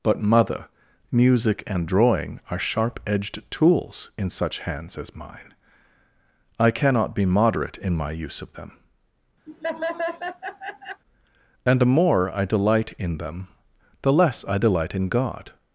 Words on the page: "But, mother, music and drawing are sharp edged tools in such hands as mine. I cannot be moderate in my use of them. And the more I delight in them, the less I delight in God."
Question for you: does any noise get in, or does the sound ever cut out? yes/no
yes